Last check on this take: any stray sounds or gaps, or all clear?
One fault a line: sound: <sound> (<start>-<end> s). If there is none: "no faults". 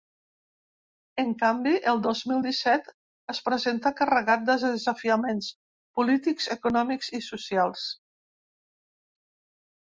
no faults